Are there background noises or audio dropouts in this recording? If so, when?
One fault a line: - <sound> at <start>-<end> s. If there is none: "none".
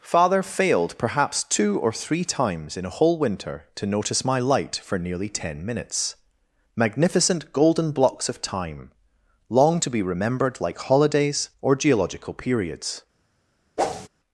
- whoosh at 13.8-14.1 s